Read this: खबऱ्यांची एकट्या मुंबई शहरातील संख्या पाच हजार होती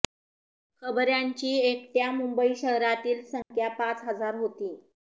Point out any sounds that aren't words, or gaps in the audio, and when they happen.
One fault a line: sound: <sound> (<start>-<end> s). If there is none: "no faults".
sound: dropout (3.4-3.5 s)